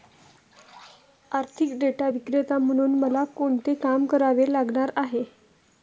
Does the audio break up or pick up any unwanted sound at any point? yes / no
no